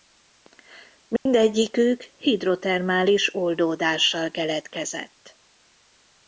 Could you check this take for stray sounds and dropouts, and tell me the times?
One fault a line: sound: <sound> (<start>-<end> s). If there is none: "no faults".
sound: dropout (1.2-1.3 s)